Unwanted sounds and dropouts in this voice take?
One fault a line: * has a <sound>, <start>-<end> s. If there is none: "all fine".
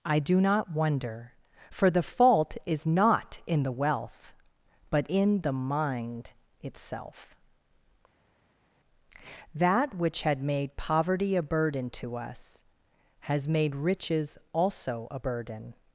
all fine